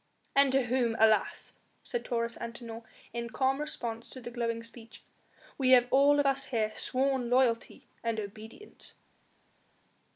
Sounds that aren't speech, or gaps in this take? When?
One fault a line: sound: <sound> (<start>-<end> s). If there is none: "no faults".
no faults